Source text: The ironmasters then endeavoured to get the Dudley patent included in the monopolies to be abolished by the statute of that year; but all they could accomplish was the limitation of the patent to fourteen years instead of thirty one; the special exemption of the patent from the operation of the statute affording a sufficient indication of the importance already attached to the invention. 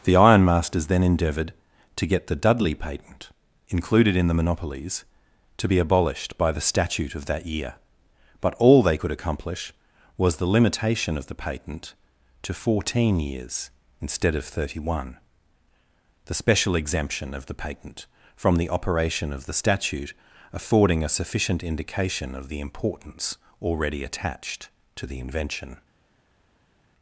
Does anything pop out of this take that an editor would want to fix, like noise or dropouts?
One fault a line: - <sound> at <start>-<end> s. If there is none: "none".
none